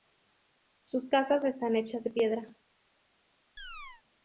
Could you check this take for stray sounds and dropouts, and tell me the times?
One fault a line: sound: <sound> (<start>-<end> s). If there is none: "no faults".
sound: chirp (3.6-4.0 s)